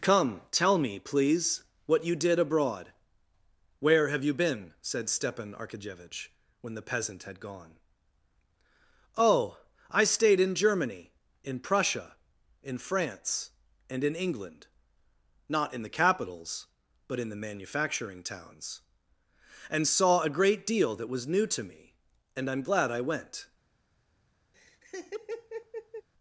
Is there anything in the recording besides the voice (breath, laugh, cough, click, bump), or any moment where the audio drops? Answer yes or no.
yes